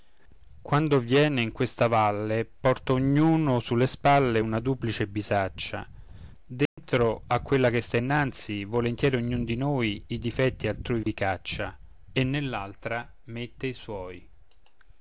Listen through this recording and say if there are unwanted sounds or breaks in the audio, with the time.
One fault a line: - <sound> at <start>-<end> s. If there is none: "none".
- dropout at 6.7-6.8 s
- dropout at 11.0-11.1 s